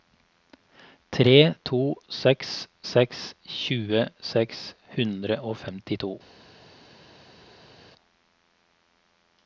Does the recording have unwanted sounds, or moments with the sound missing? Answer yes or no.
no